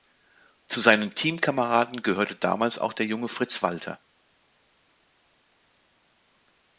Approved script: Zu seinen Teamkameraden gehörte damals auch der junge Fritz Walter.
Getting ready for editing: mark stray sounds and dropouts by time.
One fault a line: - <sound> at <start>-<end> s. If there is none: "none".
none